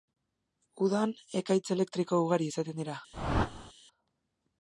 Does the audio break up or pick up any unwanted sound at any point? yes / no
yes